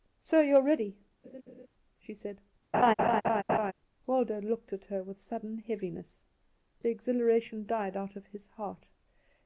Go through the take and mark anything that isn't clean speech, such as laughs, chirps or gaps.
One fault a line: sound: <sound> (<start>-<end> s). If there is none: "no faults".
sound: laugh (1.2-1.7 s)
sound: laugh (2.7-3.7 s)